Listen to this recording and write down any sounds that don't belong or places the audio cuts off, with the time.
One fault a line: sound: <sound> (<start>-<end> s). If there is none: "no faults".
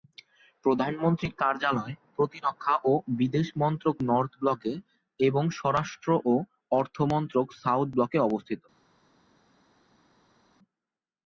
no faults